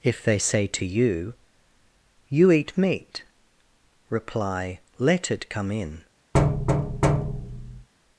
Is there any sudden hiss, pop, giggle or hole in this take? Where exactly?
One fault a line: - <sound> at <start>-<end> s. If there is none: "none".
- thud at 6.3-7.9 s